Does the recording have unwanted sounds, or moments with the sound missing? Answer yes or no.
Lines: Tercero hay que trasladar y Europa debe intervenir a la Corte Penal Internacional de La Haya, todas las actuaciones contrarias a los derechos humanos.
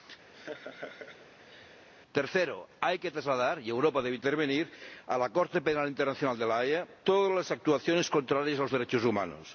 yes